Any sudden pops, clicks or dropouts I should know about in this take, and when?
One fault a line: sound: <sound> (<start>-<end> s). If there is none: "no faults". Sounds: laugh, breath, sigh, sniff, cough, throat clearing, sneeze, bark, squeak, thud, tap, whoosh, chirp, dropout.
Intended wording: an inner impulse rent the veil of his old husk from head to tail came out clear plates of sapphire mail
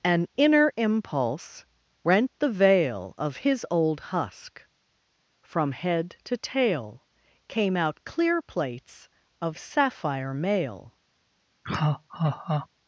sound: laugh (11.6-12.7 s)